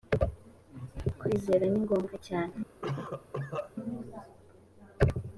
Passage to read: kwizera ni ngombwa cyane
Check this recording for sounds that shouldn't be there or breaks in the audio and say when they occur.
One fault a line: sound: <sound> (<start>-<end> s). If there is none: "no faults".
sound: cough (2.8-3.7 s)